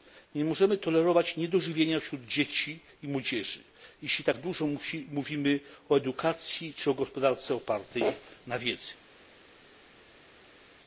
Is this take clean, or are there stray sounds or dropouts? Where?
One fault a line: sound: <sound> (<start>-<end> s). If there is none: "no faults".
no faults